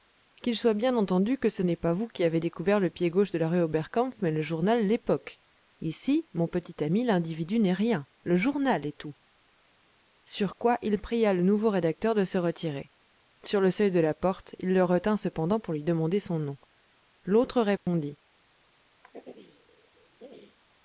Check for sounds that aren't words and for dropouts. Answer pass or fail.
fail